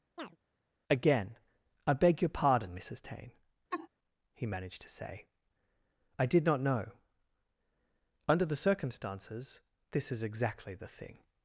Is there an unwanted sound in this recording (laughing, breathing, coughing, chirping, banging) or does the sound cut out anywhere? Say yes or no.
yes